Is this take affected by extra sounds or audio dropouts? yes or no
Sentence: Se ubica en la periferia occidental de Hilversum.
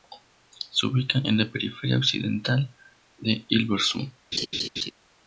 yes